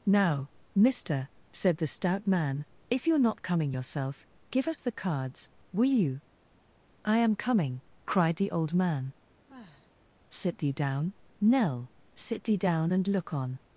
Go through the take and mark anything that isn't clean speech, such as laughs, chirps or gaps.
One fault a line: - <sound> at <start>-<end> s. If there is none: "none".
- sigh at 9.5-9.9 s